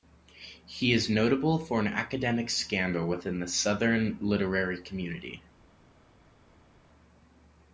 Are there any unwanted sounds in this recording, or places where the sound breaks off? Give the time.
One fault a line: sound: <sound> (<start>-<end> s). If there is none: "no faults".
no faults